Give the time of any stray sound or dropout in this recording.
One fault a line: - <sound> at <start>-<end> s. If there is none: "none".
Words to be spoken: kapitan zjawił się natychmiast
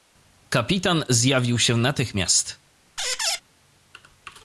- squeak at 3.0-3.4 s